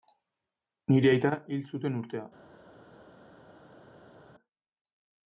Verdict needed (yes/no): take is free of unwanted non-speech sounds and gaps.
yes